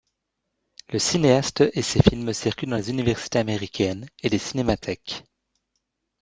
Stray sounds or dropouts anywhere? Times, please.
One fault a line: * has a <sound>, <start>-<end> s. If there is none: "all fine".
all fine